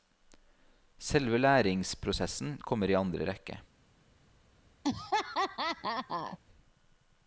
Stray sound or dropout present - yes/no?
yes